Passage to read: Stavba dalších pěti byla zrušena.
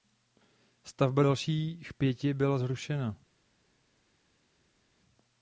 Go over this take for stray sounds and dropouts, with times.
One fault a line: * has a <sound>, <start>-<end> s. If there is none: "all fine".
all fine